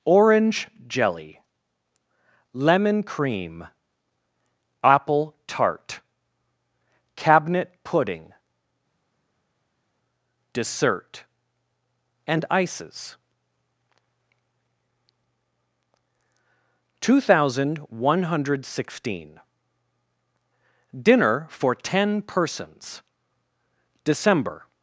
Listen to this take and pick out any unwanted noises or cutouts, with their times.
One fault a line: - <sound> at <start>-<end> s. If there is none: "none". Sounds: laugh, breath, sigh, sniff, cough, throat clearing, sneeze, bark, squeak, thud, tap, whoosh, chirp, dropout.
none